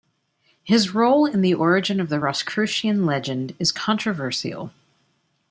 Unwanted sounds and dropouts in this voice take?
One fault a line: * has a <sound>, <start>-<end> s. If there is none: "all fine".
all fine